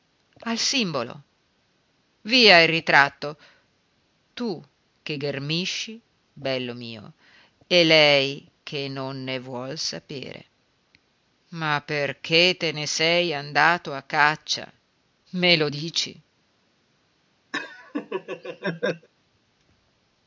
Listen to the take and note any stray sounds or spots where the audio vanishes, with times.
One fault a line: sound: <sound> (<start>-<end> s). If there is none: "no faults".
sound: laugh (17.5-19.1 s)